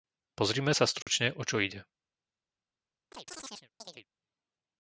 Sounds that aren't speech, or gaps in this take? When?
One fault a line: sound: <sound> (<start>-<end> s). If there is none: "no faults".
sound: dropout (1.0-1.1 s)
sound: chirp (3.1-4.1 s)